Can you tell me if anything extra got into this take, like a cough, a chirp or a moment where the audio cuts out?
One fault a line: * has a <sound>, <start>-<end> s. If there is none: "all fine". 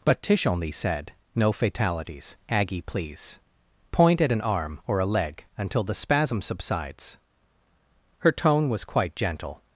all fine